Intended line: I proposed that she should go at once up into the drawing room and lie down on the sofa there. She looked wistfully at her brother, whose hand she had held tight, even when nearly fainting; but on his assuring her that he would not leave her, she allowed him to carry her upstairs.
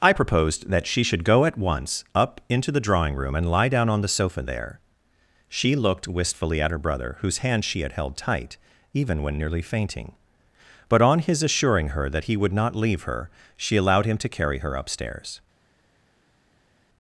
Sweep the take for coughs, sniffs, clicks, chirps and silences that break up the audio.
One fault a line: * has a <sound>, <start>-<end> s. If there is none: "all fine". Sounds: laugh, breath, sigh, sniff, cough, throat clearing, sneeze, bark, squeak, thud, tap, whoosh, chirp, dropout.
all fine